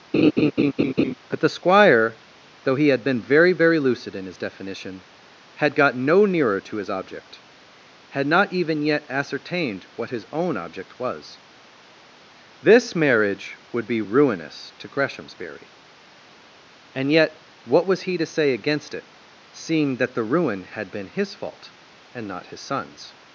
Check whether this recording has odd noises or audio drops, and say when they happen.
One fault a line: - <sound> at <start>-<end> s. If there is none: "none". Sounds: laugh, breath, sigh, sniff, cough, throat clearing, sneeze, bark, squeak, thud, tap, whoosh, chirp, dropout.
- laugh at 0.1-1.1 s